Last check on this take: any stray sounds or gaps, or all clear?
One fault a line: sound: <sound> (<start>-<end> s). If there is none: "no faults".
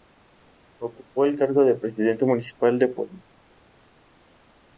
no faults